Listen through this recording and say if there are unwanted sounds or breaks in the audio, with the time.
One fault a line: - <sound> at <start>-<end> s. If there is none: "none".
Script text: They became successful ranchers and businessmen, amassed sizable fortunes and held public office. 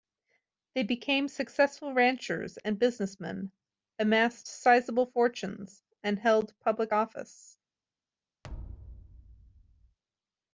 - thud at 8.4-10.0 s